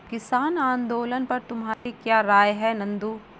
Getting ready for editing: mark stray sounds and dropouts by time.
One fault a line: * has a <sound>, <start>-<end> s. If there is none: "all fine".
* has a dropout, 1.7-1.9 s